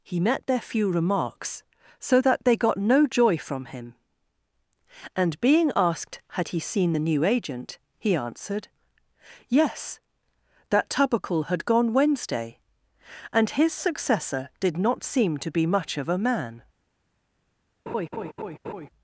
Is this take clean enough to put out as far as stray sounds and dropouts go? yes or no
no